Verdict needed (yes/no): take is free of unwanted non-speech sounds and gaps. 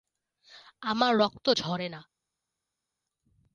yes